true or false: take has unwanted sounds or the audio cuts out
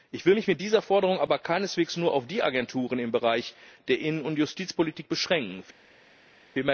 false